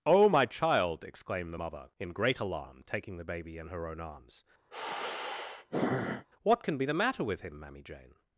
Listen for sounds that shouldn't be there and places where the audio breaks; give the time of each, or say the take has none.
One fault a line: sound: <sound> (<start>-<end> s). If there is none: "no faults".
sound: sigh (4.7-6.3 s)